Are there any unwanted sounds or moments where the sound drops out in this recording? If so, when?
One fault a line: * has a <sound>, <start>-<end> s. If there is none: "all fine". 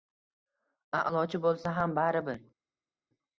all fine